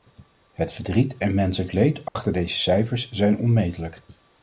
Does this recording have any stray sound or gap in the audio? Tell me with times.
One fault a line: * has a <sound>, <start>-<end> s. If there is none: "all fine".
* has a dropout, 2.1-2.2 s